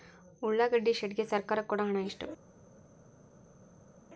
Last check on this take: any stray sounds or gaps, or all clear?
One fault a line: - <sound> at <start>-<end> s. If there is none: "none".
none